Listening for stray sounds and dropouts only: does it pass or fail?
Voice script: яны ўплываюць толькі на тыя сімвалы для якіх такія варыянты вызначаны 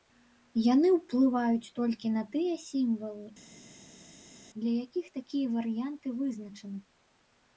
pass